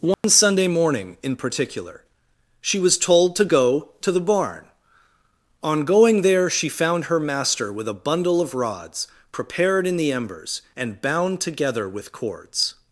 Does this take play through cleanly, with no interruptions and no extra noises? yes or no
no